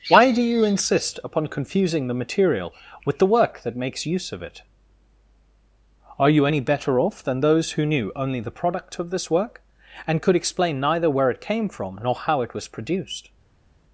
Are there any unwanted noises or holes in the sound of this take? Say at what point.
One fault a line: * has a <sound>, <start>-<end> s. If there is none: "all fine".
all fine